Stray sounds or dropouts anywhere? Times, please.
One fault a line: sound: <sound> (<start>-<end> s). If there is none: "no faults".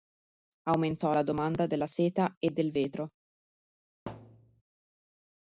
sound: thud (4.1-4.6 s)